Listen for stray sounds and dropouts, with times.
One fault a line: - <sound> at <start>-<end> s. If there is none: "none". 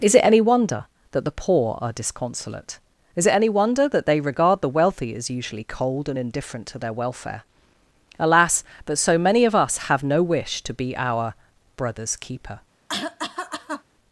- cough at 12.9-13.8 s